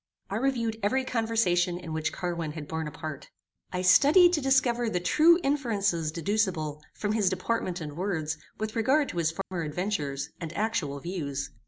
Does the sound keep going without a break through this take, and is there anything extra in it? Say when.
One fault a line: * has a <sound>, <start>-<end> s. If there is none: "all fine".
* has a dropout, 9.4-9.5 s